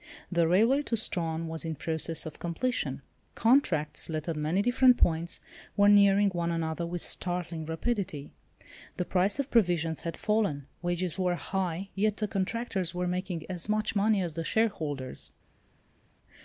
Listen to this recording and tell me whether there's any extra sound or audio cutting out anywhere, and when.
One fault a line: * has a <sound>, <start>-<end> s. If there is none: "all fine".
all fine